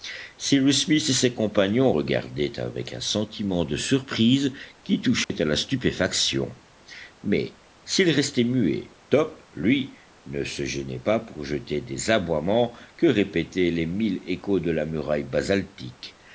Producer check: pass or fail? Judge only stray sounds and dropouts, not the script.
fail